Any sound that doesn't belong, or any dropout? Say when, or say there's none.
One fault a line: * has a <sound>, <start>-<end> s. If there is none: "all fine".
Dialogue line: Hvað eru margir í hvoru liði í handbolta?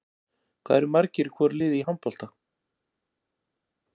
all fine